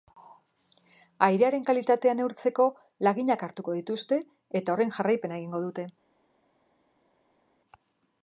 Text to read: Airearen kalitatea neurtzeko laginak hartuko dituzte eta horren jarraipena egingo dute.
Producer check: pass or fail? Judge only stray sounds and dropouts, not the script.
pass